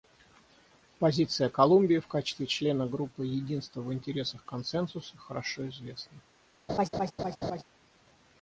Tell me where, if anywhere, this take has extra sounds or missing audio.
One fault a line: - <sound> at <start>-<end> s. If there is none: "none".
- laugh at 6.7-7.6 s